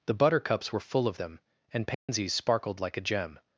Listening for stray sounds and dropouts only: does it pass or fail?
fail